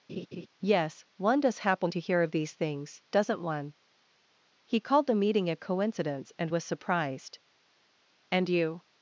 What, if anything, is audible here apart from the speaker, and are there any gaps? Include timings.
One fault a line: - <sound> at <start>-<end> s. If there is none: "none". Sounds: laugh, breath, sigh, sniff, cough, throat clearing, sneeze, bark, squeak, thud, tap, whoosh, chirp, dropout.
- laugh at 0.1-0.5 s